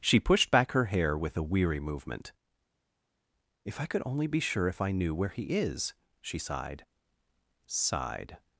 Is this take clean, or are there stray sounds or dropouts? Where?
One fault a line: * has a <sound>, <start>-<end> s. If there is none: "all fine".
all fine